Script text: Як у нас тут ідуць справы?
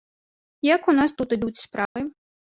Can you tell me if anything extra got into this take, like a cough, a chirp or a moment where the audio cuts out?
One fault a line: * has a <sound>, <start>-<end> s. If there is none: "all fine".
* has a dropout, 1.9-2.0 s